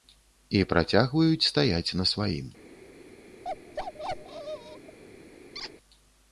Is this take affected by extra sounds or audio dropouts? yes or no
yes